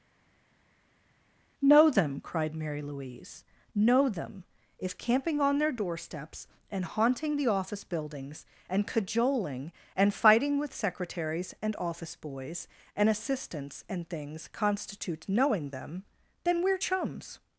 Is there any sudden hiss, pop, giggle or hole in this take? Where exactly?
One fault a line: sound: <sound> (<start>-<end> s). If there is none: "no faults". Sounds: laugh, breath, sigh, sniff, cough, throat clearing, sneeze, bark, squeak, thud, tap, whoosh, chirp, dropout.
no faults